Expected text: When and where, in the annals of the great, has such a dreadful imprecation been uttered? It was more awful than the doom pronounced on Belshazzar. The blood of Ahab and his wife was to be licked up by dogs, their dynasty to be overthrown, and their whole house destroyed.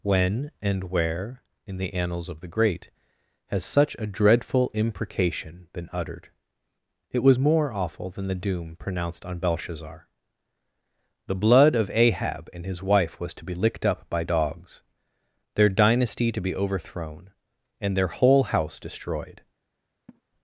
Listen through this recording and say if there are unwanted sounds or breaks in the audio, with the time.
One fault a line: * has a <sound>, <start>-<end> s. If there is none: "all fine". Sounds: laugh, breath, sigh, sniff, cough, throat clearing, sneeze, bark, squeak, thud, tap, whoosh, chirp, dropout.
* has a laugh, 20.1-20.2 s